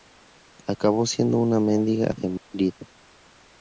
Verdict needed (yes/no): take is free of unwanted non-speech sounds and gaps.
no